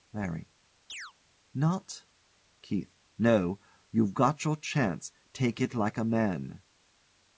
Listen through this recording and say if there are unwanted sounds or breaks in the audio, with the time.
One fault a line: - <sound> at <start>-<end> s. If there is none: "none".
- chirp at 0.9-1.1 s